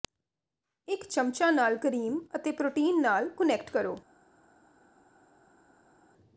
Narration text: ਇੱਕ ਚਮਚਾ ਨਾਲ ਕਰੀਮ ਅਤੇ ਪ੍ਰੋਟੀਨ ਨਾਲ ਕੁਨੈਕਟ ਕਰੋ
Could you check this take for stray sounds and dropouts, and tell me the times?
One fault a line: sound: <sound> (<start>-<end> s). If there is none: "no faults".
no faults